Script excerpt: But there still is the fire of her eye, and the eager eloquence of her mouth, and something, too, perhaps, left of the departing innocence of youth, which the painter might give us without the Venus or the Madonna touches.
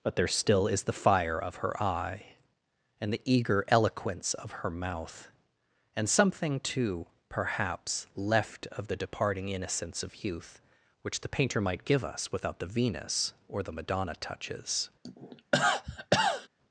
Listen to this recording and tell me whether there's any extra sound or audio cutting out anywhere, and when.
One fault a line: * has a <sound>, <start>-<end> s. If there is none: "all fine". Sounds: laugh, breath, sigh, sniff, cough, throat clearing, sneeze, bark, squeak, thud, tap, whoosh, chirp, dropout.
* has a cough, 15.0-16.5 s